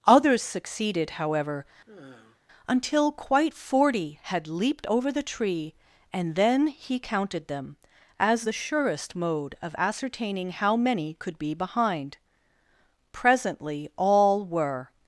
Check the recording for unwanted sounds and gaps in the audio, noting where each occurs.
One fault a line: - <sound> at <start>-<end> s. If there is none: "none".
- sigh at 1.9-2.4 s